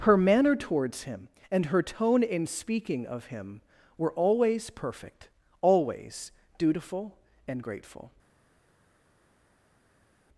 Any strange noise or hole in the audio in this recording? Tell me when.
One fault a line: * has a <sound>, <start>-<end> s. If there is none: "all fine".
all fine